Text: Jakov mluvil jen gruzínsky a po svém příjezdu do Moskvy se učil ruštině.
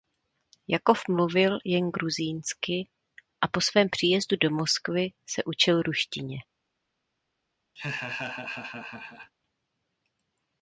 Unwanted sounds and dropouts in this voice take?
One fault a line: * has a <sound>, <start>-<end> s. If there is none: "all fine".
* has a laugh, 7.8-9.3 s